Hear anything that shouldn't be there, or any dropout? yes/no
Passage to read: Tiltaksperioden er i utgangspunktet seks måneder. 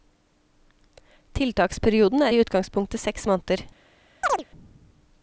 yes